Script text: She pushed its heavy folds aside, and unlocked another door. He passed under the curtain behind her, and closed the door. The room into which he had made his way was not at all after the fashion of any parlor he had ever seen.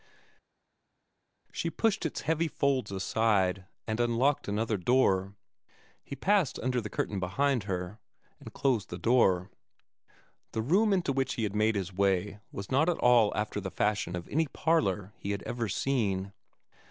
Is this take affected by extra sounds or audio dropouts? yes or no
no